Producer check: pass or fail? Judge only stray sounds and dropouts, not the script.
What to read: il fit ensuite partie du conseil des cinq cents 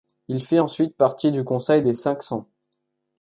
pass